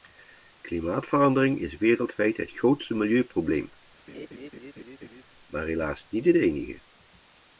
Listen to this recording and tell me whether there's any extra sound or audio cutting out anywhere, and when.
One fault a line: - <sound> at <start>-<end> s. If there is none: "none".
- laugh at 4.1-5.2 s